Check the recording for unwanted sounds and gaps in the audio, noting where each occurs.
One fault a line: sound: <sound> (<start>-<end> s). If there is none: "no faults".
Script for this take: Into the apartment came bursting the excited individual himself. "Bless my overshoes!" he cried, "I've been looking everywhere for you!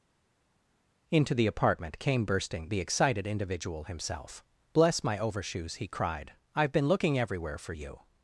no faults